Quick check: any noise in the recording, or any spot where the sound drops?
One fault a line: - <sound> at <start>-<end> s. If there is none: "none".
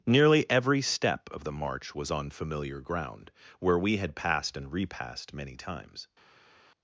none